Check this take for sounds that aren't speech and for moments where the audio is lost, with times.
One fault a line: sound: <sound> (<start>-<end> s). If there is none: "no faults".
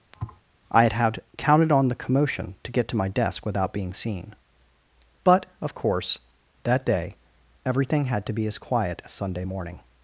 sound: thud (0.1-0.4 s)